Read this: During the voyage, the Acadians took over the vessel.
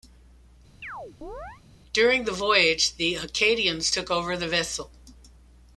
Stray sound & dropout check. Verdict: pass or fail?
fail